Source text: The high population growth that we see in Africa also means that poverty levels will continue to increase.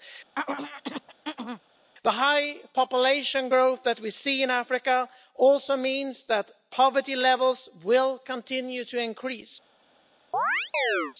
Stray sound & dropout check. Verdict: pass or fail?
fail